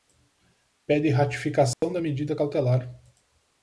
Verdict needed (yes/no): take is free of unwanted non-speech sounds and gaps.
no